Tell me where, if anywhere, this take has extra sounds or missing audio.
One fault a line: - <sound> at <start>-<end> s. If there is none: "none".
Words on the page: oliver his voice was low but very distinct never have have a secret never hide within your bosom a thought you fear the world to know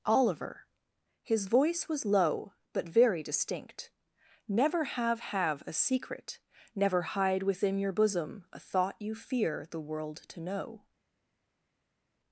none